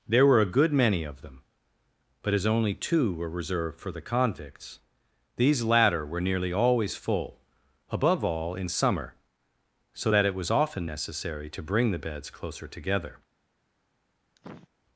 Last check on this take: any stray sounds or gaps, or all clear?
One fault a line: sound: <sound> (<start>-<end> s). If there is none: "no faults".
sound: sniff (14.4-14.7 s)